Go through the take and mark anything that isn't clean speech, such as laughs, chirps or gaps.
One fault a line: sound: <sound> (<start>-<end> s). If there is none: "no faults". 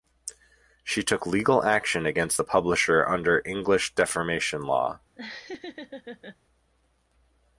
sound: laugh (5.2-6.4 s)